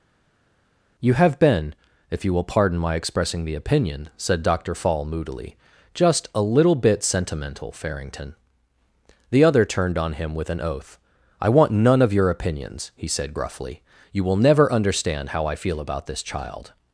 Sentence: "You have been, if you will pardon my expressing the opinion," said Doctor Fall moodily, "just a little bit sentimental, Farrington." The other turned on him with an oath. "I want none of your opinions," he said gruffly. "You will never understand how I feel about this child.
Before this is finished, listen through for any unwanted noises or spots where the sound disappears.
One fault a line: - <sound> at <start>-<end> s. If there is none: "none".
none